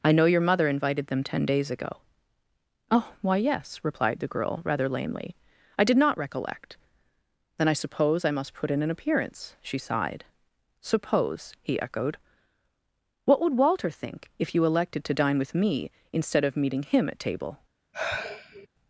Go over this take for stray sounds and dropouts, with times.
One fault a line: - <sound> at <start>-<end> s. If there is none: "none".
- sigh at 17.9-18.7 s